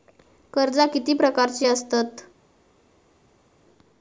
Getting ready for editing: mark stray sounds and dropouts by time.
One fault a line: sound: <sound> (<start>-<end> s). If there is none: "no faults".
no faults